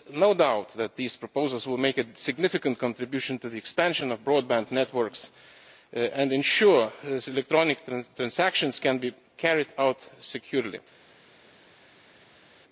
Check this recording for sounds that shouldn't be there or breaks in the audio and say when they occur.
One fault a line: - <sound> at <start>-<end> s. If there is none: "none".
none